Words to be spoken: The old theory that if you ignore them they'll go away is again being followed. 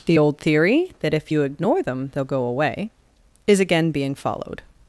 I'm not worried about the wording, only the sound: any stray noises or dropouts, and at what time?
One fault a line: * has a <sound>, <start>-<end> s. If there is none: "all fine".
all fine